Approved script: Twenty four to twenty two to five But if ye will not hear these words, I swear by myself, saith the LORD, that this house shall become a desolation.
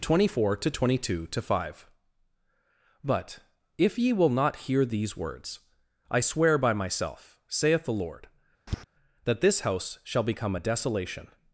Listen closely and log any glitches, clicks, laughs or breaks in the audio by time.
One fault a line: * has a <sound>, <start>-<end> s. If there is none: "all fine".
* has a tap, 8.7-8.8 s